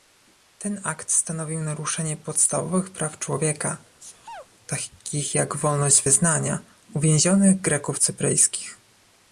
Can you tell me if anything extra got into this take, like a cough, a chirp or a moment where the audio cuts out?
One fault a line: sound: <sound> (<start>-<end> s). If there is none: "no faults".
sound: sneeze (4.0-4.5 s)